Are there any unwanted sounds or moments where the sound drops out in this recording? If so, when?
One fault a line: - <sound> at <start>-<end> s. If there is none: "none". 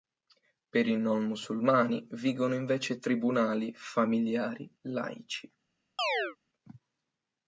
- chirp at 6.0-6.4 s